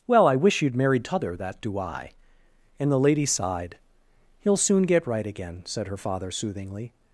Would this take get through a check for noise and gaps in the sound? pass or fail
pass